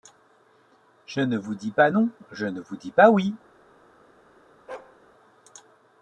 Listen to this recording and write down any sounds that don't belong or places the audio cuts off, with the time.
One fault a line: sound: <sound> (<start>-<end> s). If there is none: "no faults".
sound: bark (4.7-5.0 s)